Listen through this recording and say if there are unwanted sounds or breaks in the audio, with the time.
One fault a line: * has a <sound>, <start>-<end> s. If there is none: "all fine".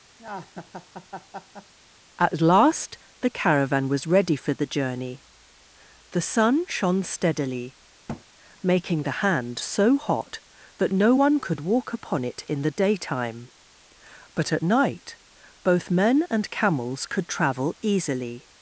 * has a laugh, 0.2-1.7 s
* has a thud, 8.1-8.2 s